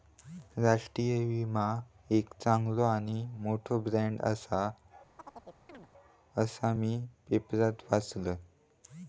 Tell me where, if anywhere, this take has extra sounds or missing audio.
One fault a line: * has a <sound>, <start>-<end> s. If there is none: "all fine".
* has a chirp, 5.2-5.9 s